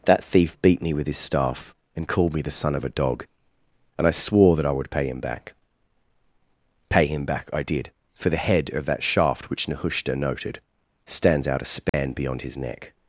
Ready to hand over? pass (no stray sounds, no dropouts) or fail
fail